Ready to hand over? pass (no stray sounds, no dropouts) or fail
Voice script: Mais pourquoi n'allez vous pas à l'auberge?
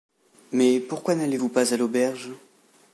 pass